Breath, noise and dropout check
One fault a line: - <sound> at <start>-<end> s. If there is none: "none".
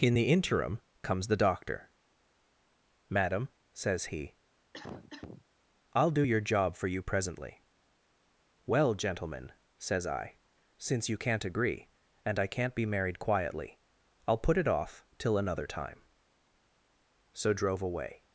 - cough at 4.7-5.5 s